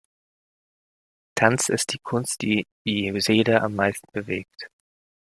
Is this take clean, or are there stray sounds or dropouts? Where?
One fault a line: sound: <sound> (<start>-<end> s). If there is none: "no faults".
no faults